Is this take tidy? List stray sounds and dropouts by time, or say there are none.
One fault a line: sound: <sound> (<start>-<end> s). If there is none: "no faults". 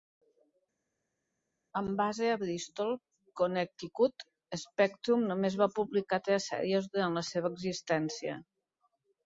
no faults